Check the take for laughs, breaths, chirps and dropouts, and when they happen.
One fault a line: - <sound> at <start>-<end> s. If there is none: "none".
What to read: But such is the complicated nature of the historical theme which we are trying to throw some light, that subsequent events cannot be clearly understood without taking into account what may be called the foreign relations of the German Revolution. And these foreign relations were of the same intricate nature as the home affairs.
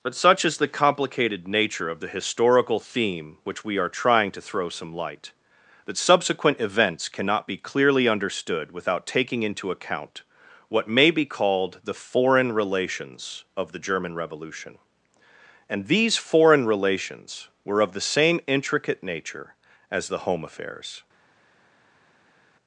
none